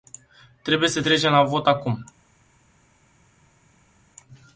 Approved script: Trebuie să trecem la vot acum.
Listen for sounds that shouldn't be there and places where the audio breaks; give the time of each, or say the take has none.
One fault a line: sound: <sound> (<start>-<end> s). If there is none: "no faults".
no faults